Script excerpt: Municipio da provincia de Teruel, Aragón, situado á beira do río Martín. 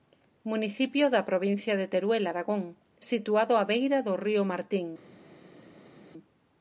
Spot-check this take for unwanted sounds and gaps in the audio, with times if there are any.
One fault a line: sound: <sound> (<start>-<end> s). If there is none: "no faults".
no faults